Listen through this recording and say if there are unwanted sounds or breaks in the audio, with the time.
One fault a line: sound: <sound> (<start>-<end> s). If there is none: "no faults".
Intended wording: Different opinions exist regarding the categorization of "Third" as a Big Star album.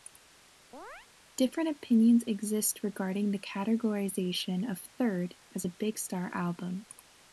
sound: chirp (0.7-1.1 s)